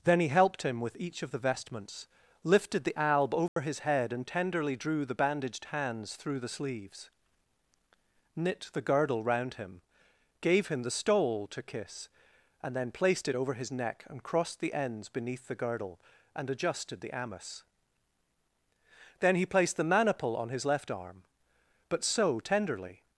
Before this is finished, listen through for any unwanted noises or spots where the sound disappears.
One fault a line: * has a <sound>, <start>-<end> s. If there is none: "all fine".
* has a dropout, 3.5-3.6 s